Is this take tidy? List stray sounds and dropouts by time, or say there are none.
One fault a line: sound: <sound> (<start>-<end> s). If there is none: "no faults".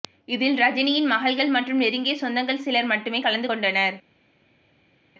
no faults